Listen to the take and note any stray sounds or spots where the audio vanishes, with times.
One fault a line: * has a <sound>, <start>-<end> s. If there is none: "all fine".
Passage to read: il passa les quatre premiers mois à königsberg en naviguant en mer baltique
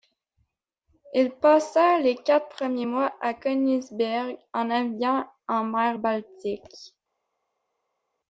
all fine